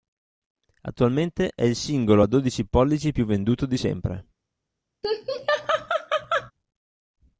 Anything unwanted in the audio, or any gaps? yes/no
yes